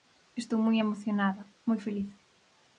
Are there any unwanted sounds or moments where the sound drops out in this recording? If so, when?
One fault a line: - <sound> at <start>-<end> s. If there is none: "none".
none